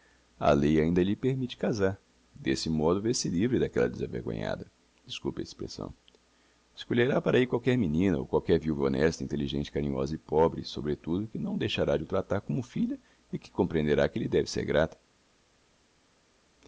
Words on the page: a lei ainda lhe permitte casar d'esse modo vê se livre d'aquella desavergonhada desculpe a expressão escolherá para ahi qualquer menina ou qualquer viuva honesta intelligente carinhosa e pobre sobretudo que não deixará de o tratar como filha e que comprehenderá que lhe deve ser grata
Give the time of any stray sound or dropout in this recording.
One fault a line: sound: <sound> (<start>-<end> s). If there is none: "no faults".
no faults